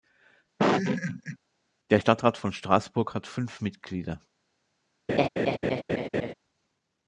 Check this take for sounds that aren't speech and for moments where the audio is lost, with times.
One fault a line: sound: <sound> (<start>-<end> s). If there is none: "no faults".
sound: laugh (0.6-1.4 s)
sound: laugh (5.1-6.3 s)